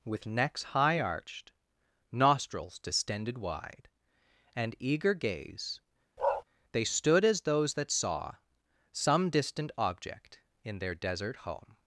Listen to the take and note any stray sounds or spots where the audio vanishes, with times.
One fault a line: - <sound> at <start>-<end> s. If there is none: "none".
- bark at 6.2-6.4 s